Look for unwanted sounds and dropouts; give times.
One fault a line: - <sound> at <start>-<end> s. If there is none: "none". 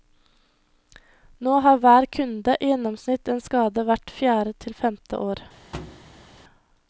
- thud at 5.7-6.4 s